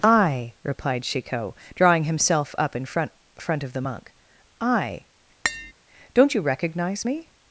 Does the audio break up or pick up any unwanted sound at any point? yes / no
yes